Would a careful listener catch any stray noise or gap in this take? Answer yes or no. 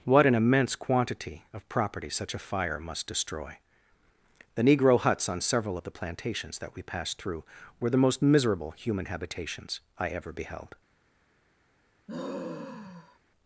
yes